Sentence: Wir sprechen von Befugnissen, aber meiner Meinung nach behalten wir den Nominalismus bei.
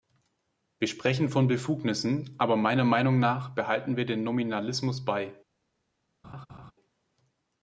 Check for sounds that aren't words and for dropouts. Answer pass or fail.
fail